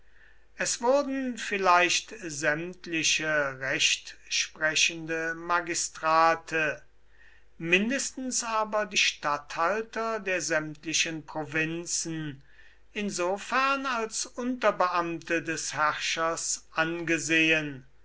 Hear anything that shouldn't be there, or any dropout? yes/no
no